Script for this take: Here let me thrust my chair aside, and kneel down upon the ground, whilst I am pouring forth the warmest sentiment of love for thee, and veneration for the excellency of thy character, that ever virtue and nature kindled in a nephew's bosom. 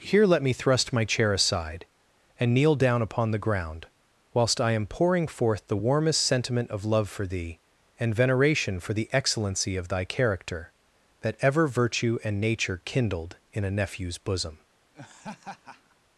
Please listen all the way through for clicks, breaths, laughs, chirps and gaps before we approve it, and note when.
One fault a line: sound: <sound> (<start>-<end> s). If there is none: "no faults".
sound: laugh (14.9-16.0 s)